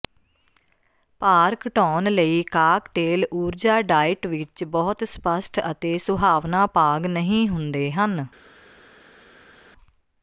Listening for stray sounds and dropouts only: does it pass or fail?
pass